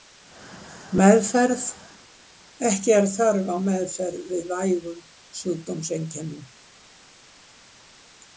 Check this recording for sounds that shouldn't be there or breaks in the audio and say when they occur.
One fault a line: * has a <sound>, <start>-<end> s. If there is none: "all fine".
all fine